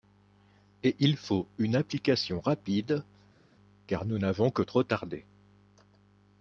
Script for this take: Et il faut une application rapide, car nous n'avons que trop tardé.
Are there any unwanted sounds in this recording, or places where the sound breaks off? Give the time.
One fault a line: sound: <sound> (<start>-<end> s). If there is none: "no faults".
no faults